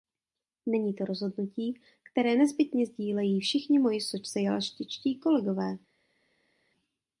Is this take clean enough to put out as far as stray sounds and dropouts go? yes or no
yes